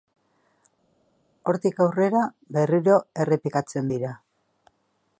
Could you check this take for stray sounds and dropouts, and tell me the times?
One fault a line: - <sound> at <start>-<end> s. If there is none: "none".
none